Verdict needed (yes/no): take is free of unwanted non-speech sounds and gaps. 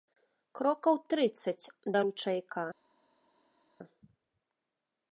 yes